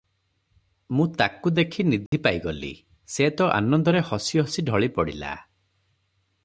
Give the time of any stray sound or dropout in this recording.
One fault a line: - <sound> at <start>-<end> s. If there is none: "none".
- dropout at 2.1-2.1 s